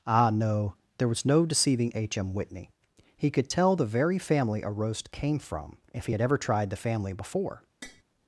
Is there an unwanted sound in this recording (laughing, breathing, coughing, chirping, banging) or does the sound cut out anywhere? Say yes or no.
yes